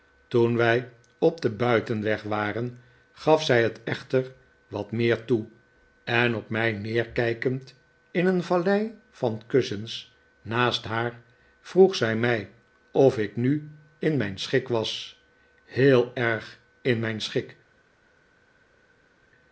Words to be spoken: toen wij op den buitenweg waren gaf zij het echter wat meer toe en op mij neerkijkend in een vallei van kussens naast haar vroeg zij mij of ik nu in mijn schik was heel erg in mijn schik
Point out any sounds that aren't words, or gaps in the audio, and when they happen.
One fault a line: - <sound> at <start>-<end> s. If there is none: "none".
none